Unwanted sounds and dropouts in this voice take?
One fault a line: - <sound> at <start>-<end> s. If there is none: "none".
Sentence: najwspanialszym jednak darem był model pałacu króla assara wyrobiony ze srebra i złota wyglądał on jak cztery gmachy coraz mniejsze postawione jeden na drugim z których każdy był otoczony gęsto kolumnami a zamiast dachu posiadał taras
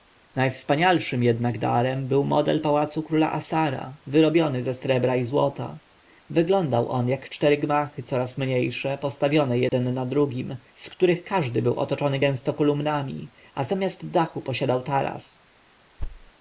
- dropout at 9.7-9.7 s
- thud at 16.0-16.3 s